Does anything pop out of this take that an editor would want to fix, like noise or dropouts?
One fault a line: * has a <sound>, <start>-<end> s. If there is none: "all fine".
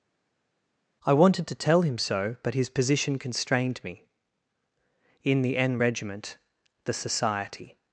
all fine